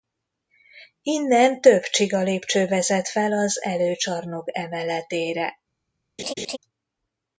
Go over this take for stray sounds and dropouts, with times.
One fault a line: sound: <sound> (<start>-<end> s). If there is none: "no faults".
sound: laugh (6.2-6.6 s)